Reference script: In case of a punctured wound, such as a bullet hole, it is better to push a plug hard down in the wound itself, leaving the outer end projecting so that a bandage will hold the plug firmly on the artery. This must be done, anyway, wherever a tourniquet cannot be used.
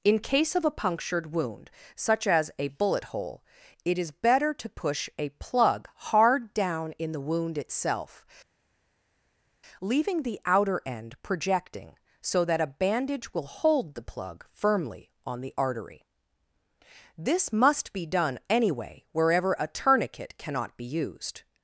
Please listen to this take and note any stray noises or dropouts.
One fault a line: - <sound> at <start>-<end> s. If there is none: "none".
none